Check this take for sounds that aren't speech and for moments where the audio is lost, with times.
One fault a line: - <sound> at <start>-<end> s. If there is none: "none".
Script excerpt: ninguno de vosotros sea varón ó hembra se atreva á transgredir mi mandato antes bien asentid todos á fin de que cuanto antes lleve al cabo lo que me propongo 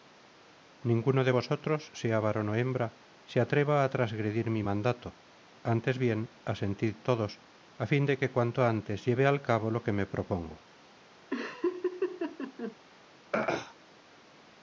- laugh at 11.3-12.8 s
- throat clearing at 13.3-13.7 s